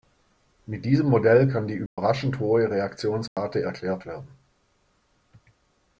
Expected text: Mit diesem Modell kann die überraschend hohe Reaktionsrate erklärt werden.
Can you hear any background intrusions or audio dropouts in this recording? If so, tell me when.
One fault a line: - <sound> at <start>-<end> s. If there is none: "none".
- dropout at 1.9-2.0 s
- dropout at 3.3-3.4 s